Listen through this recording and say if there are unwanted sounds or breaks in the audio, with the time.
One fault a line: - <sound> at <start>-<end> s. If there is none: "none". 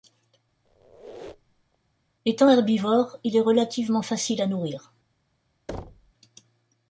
- squeak at 0.6-1.8 s
- thud at 5.7-6.1 s